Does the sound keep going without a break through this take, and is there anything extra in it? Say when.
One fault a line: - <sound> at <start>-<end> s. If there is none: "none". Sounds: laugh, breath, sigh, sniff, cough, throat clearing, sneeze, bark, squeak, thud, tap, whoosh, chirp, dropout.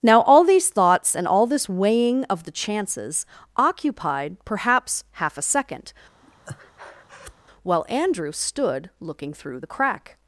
- breath at 6.2-7.4 s